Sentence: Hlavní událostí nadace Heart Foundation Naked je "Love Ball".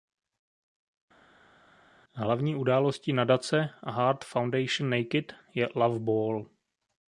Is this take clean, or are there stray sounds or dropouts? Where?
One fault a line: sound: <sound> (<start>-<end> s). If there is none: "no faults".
no faults